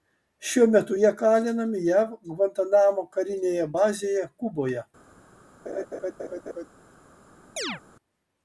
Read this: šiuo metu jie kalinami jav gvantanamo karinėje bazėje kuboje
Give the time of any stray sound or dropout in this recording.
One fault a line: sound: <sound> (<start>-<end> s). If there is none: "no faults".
sound: laugh (5.7-6.7 s)
sound: chirp (7.6-7.8 s)